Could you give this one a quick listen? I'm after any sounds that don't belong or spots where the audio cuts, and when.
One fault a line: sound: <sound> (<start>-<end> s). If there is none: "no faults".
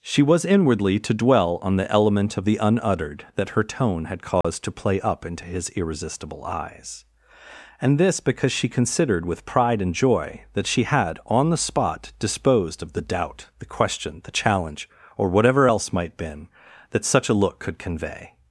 sound: dropout (4.4-4.4 s)